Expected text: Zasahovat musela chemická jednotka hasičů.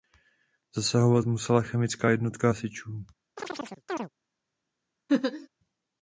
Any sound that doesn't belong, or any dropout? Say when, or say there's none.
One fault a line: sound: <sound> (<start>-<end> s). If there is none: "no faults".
sound: chirp (3.4-4.1 s)
sound: laugh (5.1-5.5 s)